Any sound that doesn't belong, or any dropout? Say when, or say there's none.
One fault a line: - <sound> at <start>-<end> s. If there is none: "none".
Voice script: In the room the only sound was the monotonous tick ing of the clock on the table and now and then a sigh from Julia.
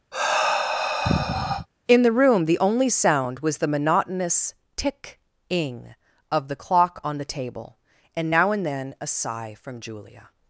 - sigh at 0.1-1.7 s